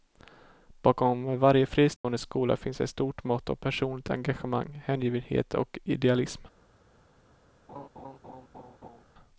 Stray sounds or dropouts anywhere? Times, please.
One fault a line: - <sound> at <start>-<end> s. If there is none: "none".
- dropout at 2.0-2.0 s
- laugh at 7.7-9.0 s